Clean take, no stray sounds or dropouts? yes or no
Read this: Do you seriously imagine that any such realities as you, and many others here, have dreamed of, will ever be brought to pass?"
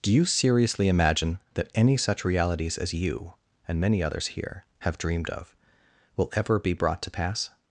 yes